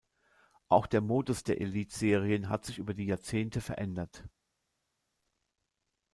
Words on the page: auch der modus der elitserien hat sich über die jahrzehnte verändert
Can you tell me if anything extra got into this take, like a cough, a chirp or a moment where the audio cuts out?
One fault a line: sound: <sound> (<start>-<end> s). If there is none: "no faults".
no faults